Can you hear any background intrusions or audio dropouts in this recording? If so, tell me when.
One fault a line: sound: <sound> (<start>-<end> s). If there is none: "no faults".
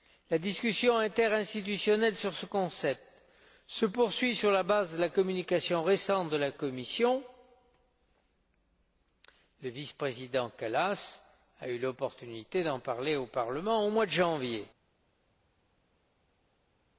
no faults